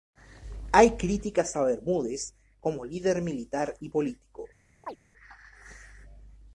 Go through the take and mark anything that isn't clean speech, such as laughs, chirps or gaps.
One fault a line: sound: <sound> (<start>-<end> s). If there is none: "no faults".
sound: chirp (4.8-5.0 s)